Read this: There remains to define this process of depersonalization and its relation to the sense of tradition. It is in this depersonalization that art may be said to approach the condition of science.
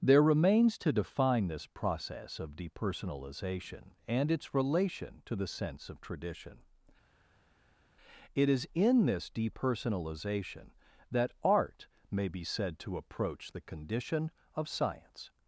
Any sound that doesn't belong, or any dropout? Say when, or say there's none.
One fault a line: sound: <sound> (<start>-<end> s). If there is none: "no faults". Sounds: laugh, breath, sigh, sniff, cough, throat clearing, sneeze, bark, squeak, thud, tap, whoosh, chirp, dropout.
no faults